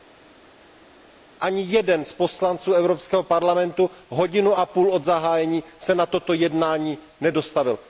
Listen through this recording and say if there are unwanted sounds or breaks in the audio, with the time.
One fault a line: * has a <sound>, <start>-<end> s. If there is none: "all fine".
all fine